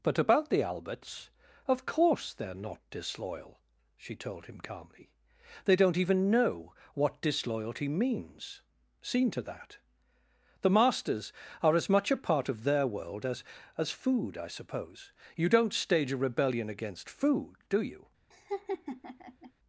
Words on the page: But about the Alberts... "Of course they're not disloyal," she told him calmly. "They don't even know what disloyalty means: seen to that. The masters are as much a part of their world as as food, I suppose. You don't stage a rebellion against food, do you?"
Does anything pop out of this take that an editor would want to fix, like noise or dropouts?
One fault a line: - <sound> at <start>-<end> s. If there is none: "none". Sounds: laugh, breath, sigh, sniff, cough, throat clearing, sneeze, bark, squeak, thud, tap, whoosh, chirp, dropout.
- laugh at 18.3-19.5 s